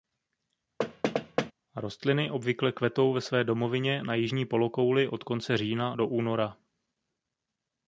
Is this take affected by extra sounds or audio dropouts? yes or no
yes